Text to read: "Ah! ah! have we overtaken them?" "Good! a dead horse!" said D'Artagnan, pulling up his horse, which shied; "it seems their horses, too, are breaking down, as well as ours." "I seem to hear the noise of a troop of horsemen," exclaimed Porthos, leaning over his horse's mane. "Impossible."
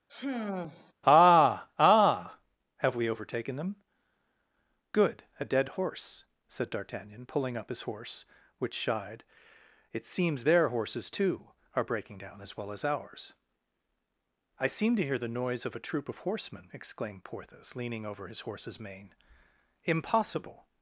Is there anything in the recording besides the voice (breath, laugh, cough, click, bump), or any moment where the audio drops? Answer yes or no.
yes